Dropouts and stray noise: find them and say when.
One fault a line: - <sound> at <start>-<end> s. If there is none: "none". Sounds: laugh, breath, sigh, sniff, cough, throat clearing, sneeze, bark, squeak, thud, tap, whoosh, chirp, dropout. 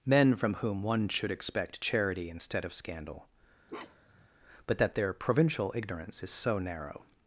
- bark at 3.7-4.3 s